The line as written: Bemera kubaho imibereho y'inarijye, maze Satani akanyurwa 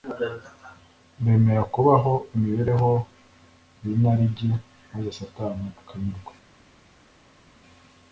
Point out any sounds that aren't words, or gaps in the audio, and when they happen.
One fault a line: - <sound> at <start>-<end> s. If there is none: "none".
none